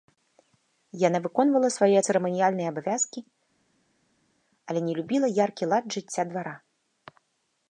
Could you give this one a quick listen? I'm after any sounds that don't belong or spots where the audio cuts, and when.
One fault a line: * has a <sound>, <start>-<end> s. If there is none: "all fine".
all fine